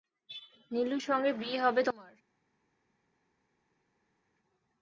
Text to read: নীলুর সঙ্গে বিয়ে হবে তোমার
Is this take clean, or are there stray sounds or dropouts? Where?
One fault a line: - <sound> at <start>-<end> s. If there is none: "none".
none